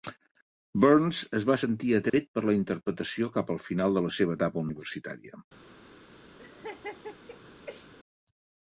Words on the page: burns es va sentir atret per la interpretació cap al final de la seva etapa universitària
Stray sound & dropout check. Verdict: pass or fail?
fail